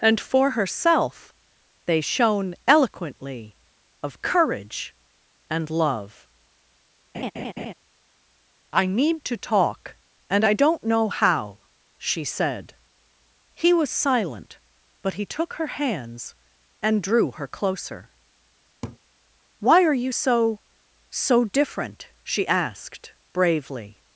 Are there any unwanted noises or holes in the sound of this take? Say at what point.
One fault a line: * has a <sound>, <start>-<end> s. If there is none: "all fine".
* has a laugh, 7.1-7.7 s
* has a laugh, 18.8-19.0 s